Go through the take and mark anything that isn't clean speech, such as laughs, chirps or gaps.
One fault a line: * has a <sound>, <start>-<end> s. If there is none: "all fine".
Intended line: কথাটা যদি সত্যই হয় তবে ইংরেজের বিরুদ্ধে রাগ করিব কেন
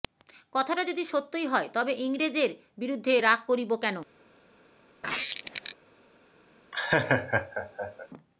* has a squeak, 5.0-5.8 s
* has a laugh, 6.7-8.1 s